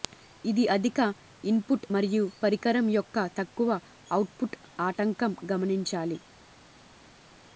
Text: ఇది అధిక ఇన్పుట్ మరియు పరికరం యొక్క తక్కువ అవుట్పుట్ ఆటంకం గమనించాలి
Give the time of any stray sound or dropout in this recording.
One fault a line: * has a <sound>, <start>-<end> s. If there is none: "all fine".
all fine